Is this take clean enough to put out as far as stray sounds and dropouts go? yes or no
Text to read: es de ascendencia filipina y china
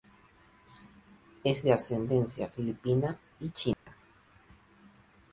no